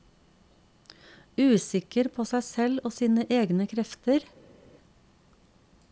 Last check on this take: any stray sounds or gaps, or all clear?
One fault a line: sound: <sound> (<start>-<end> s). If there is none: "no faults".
no faults